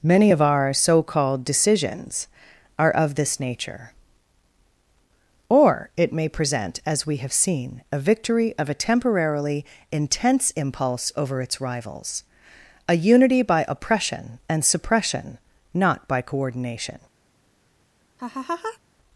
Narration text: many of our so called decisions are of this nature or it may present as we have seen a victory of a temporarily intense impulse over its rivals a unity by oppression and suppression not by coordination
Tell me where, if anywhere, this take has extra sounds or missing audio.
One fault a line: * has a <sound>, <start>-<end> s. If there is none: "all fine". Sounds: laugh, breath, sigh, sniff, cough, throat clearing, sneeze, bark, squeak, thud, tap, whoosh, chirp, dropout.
* has a laugh, 18.2-18.8 s